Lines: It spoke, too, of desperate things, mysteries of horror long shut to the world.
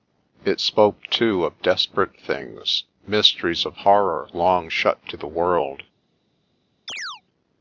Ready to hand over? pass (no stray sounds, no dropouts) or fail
fail